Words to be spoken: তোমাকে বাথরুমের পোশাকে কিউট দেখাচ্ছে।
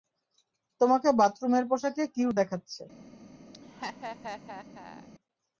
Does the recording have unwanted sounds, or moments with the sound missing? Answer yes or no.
yes